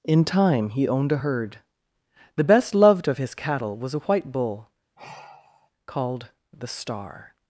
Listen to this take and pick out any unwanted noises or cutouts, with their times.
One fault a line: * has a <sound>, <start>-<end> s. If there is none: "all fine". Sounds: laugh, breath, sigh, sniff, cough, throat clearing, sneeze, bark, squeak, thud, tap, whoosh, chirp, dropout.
* has a sigh, 5.0-5.7 s